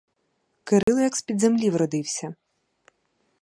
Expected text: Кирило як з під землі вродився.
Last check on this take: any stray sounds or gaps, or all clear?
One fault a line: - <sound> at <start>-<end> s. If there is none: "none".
- dropout at 0.8-0.9 s